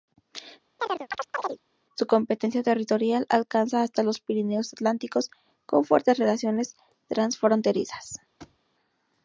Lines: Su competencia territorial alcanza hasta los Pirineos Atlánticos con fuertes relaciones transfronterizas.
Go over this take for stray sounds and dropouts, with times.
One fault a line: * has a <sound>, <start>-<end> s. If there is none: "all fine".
* has a chirp, 0.8-1.6 s
* has a thud, 8.4-8.6 s